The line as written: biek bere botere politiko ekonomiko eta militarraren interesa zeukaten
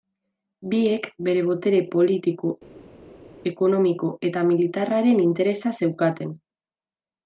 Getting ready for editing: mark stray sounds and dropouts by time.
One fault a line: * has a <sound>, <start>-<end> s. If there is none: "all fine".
all fine